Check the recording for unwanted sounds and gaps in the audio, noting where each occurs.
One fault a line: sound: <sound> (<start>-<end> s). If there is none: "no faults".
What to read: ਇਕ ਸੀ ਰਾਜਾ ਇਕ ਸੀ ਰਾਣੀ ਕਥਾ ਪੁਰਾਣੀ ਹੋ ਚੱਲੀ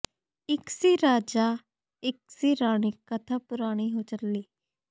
no faults